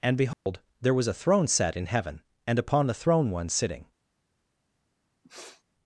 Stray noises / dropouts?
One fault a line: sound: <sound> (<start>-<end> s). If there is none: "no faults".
sound: dropout (0.3-0.5 s)
sound: sniff (5.2-5.6 s)